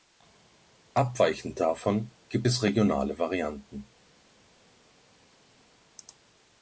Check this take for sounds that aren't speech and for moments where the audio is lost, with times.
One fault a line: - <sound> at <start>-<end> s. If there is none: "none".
none